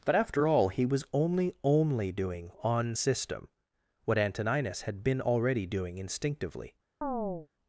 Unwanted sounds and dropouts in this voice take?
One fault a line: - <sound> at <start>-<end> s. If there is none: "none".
- chirp at 7.0-7.5 s